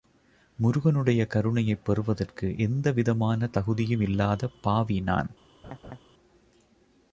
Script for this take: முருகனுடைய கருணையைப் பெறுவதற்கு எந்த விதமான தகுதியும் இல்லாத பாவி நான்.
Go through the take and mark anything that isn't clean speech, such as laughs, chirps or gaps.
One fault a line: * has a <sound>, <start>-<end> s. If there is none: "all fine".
* has a laugh, 5.6-6.0 s